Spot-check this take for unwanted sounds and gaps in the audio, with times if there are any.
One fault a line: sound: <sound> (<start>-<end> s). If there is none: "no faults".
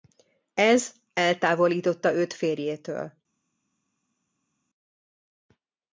no faults